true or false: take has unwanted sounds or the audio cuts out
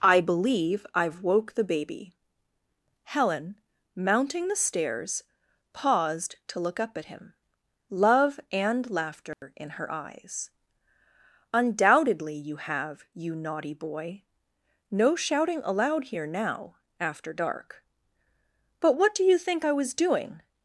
true